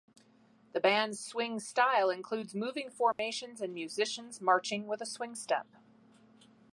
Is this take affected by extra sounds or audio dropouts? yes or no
yes